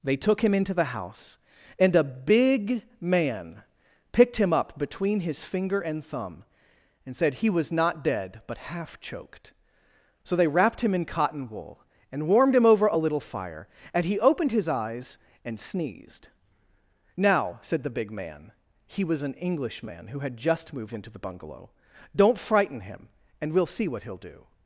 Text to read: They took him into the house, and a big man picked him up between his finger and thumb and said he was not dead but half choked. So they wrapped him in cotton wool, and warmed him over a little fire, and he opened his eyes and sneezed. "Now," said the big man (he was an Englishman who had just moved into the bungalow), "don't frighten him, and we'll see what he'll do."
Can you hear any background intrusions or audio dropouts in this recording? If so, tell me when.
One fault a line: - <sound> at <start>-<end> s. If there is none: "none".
none